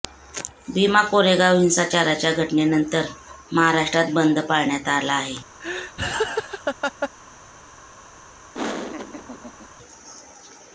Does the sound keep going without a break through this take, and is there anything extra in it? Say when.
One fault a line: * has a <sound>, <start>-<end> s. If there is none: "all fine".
* has a laugh, 5.6-7.1 s
* has a laugh, 8.5-9.7 s